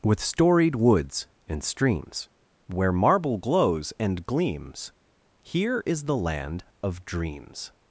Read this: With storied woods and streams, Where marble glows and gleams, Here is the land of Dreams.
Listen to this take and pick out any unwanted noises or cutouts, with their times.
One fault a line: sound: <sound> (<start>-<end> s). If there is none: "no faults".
no faults